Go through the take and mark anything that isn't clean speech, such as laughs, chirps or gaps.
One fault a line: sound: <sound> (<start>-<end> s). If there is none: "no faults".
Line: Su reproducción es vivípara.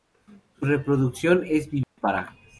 sound: dropout (1.8-2.0 s)